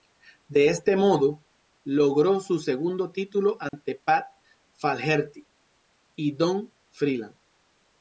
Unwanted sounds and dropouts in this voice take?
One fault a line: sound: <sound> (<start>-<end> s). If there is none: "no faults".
sound: dropout (3.7-3.7 s)